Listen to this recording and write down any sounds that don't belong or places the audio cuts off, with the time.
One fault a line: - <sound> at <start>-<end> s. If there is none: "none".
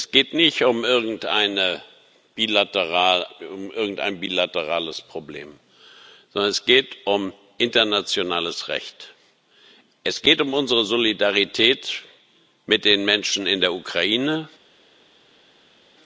none